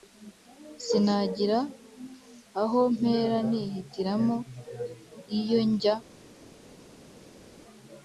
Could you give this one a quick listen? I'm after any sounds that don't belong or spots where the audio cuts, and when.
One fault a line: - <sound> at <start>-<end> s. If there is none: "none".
none